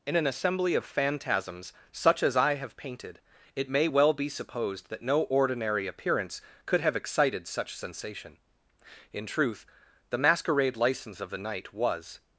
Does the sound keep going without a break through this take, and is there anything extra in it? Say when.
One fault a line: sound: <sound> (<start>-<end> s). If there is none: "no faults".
no faults